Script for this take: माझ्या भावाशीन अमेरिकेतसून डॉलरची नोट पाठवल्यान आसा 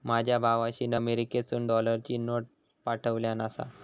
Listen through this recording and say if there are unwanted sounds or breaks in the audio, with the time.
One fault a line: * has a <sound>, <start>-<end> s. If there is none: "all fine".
all fine